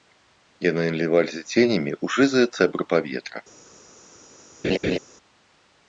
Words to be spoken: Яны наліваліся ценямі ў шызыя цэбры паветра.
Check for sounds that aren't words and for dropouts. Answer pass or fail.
fail